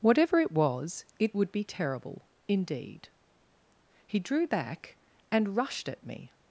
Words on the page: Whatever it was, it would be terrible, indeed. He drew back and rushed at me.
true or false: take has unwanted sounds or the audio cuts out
false